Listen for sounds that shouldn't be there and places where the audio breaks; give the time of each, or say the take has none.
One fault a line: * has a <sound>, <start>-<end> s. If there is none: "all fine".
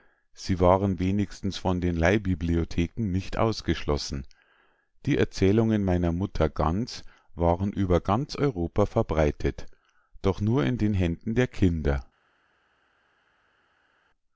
all fine